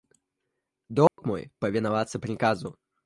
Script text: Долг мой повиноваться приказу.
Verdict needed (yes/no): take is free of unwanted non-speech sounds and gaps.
no